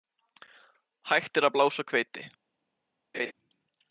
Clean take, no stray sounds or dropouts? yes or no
no